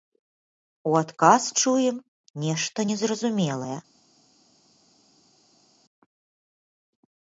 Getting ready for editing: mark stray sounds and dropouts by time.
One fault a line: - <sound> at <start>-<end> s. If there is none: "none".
none